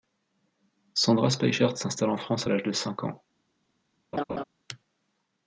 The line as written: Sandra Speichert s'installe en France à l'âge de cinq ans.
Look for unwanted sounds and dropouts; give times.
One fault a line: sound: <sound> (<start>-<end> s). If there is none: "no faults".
sound: laugh (4.1-4.4 s)